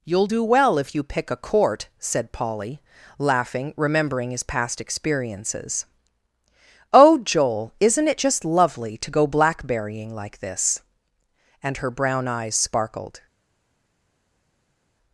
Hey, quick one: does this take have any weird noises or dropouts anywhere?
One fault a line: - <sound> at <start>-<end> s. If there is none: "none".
none